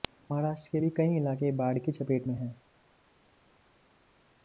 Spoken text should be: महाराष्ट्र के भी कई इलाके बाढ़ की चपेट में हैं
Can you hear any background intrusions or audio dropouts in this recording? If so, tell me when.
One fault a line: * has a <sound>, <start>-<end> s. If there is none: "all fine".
all fine